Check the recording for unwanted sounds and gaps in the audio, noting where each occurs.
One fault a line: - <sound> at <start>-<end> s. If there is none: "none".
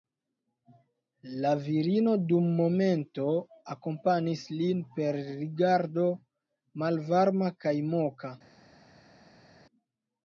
none